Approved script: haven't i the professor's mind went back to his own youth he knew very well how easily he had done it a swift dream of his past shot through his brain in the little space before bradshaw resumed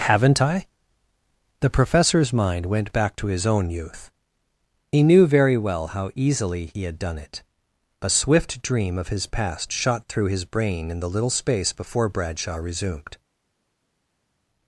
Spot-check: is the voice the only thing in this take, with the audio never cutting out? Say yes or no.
yes